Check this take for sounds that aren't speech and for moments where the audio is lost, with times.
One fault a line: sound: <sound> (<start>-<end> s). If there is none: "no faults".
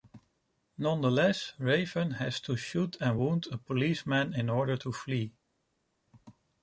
no faults